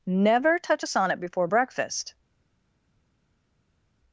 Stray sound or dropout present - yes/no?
no